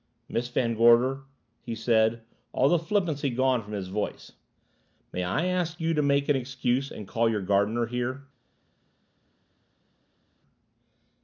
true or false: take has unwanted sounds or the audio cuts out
false